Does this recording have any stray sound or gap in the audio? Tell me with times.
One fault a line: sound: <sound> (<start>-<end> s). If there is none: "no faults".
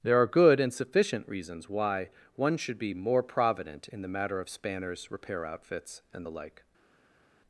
no faults